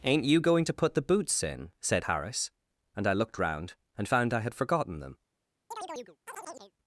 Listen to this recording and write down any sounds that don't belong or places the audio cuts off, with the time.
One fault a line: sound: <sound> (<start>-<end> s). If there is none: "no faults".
sound: chirp (5.7-6.7 s)